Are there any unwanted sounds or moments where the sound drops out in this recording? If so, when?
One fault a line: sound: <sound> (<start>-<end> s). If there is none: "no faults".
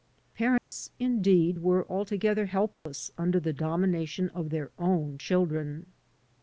sound: dropout (0.6-0.7 s)
sound: dropout (2.7-2.9 s)